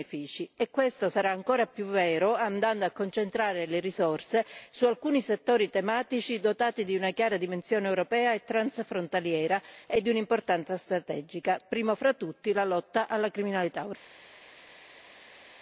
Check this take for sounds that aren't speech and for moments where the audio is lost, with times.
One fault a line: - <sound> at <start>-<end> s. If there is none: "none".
none